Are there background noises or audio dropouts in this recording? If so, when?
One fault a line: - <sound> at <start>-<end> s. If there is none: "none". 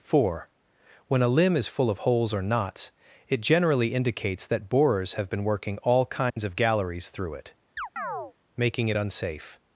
- dropout at 6.3-6.4 s
- chirp at 7.8-8.3 s